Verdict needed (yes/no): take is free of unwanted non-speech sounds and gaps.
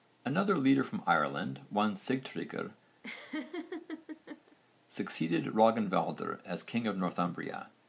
no